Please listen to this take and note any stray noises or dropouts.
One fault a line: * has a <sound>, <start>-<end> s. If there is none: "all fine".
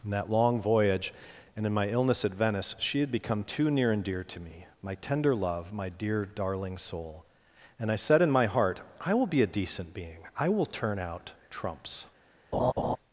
* has a laugh, 12.5-13.0 s